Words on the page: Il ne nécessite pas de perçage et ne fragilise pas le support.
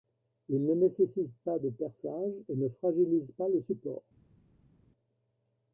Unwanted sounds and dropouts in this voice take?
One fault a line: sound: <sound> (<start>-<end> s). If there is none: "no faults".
no faults